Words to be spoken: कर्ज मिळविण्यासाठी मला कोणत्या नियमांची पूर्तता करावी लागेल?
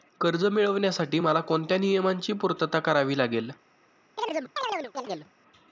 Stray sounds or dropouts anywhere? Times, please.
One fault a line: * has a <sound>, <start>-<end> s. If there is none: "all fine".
* has a chirp, 4.2-5.3 s